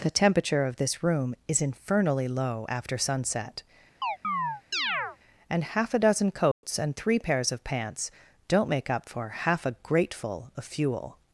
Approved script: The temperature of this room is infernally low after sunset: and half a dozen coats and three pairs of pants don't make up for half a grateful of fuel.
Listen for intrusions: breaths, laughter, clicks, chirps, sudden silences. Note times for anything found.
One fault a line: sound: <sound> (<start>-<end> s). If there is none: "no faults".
sound: chirp (4.0-5.2 s)
sound: dropout (6.5-6.6 s)